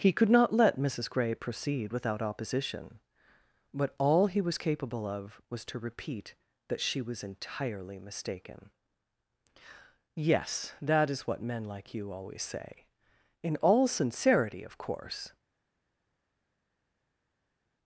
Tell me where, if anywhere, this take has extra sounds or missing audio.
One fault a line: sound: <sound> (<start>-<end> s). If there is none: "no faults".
no faults